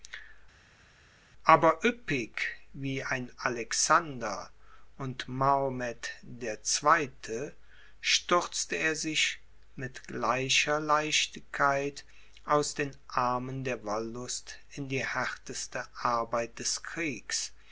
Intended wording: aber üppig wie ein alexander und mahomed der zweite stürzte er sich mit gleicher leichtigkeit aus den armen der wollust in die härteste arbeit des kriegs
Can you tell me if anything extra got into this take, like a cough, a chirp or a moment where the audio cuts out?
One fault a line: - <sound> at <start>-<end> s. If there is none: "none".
none